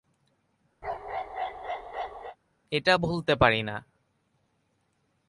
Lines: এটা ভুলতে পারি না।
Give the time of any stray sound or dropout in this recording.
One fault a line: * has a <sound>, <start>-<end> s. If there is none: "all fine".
* has a bark, 0.8-2.4 s